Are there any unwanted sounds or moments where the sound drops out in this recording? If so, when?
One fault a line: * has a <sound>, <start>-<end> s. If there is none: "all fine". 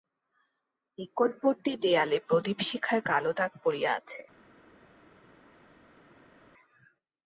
all fine